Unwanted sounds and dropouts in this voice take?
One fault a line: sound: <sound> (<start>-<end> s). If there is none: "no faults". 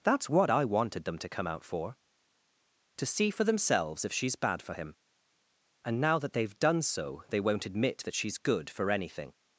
no faults